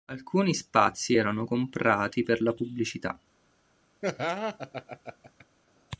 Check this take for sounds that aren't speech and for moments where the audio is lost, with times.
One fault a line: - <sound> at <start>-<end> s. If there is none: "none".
- laugh at 4.0-5.5 s